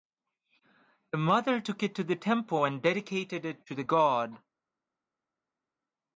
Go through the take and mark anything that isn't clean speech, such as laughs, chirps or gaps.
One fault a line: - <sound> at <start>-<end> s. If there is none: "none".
none